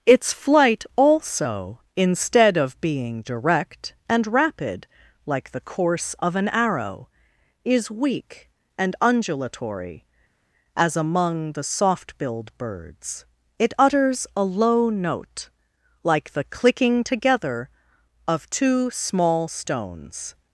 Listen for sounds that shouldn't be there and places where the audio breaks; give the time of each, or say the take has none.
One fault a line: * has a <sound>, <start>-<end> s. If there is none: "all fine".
all fine